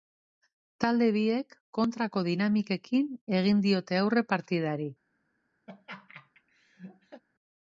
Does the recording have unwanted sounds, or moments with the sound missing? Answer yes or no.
yes